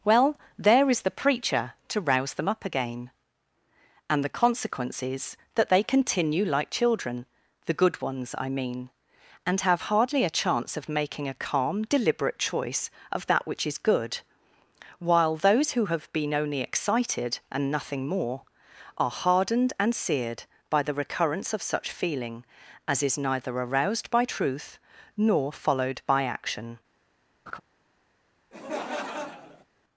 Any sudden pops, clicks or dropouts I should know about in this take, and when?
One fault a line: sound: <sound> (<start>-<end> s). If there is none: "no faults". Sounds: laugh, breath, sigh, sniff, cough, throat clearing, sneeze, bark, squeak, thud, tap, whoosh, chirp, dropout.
sound: laugh (27.5-27.6 s)
sound: laugh (28.5-29.6 s)